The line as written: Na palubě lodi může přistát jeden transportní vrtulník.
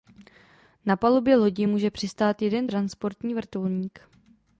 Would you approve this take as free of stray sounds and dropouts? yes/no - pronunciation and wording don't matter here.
yes